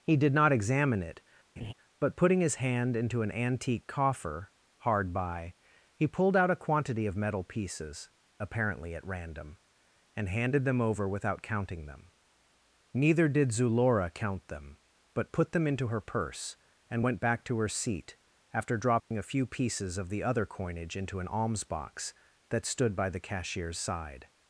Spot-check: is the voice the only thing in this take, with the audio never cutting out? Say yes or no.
no